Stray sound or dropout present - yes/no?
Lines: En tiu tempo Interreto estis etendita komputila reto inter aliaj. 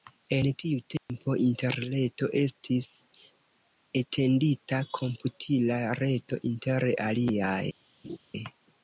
yes